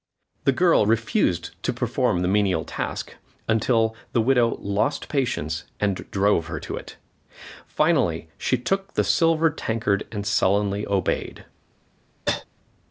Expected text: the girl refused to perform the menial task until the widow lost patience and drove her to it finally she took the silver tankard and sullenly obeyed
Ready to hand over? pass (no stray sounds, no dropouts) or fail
fail